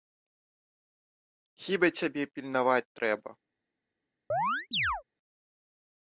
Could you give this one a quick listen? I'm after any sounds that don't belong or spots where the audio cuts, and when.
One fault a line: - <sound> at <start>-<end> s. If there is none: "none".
- chirp at 4.3-5.0 s